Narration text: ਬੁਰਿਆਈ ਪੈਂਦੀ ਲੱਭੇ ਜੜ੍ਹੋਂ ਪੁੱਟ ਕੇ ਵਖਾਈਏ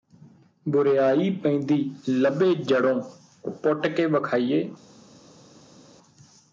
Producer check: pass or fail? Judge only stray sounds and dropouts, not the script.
pass